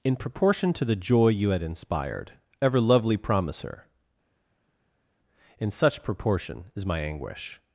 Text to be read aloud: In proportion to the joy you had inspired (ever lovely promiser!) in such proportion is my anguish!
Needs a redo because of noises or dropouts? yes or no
no